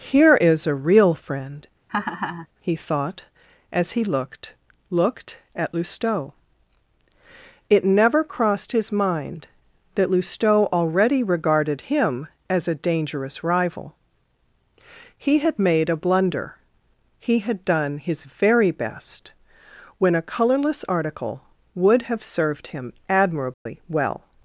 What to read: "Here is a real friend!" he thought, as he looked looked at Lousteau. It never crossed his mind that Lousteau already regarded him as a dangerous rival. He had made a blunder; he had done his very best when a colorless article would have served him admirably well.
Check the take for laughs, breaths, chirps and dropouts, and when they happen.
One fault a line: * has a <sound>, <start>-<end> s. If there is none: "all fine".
* has a laugh, 1.9-2.5 s
* has a dropout, 23.5-23.7 s